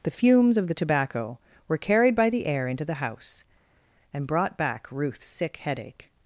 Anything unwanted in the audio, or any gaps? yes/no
no